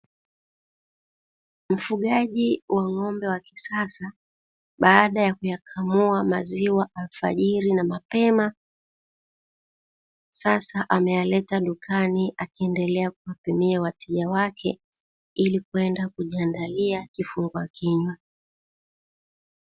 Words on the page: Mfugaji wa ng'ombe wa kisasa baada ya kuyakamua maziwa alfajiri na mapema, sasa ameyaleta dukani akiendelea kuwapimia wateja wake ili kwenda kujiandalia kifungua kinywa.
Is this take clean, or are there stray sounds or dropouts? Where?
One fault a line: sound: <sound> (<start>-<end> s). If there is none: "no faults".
no faults